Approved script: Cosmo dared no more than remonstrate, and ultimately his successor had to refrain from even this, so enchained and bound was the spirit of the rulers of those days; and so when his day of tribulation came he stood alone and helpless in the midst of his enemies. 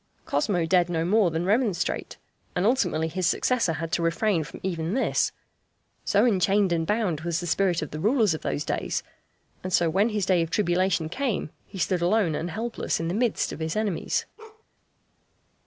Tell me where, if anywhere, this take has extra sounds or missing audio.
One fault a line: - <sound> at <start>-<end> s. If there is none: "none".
- bark at 14.4-14.6 s